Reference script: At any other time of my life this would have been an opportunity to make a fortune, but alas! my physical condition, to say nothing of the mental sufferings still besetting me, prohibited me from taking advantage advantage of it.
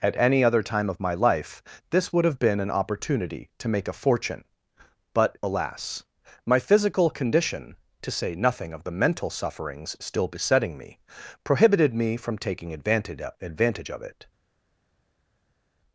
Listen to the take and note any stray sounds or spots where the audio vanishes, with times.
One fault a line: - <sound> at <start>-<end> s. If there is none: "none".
none